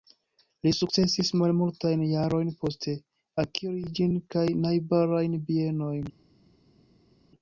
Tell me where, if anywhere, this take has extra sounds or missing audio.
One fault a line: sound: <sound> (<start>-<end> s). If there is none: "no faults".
no faults